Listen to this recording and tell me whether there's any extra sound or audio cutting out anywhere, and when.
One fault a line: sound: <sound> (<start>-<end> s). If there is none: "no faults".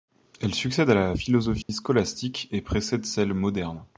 sound: dropout (1.6-1.7 s)